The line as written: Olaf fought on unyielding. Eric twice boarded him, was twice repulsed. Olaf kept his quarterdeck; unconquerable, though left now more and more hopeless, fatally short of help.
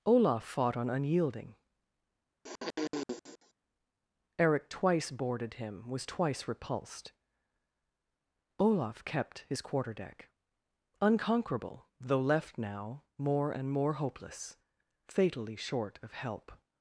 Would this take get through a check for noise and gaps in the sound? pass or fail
fail